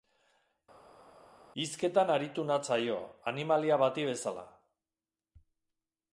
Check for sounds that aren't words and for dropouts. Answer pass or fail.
pass